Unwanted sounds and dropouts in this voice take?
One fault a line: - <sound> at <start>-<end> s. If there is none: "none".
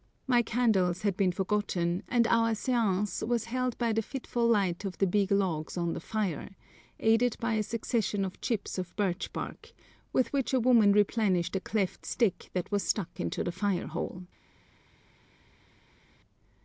none